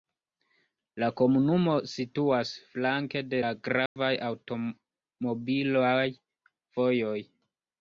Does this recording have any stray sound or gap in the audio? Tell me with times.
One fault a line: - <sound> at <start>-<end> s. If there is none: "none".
- dropout at 3.9-4.0 s